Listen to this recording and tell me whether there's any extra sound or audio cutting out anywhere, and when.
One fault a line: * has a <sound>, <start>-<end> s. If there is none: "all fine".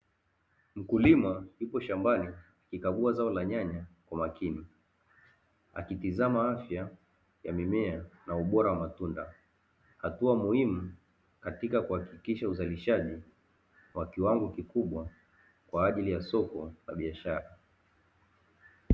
all fine